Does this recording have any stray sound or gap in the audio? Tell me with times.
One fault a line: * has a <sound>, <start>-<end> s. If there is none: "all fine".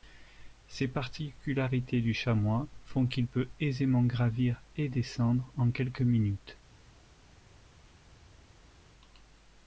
all fine